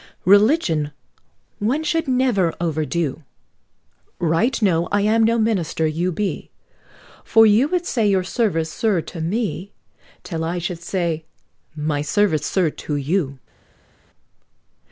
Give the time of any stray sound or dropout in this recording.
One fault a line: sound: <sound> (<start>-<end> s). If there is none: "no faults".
no faults